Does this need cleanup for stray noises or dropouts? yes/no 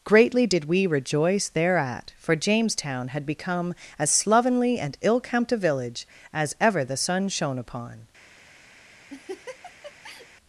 yes